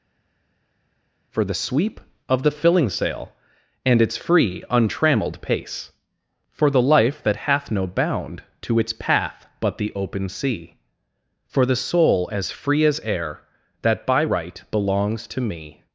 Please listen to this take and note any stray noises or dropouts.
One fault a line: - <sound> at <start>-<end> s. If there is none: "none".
none